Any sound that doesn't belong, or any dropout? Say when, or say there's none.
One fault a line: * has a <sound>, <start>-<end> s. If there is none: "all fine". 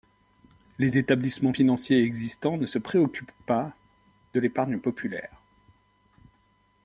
all fine